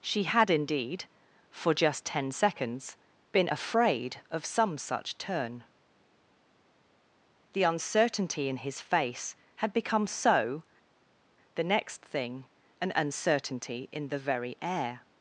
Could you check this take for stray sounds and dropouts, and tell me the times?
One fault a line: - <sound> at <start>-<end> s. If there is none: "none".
none